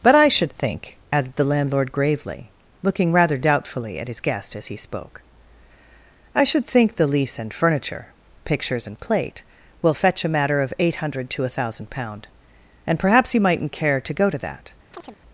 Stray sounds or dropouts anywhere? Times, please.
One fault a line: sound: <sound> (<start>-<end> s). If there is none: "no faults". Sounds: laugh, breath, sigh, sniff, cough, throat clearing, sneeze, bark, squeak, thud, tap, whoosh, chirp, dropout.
sound: chirp (14.9-15.2 s)